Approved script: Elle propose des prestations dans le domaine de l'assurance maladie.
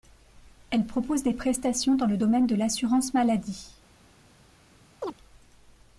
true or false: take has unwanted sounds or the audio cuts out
true